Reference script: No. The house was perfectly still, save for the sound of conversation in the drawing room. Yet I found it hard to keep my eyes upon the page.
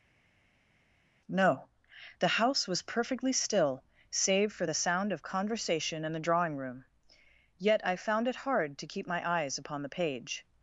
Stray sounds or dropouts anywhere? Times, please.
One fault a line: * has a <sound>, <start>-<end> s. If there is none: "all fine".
all fine